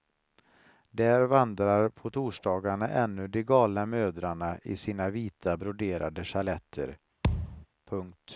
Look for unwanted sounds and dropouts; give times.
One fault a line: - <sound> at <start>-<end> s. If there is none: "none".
- thud at 7.2-7.7 s